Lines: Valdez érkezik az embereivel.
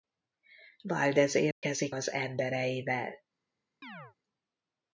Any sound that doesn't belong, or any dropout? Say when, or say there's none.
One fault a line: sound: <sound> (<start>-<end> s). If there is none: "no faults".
sound: dropout (1.5-1.6 s)
sound: chirp (3.8-4.2 s)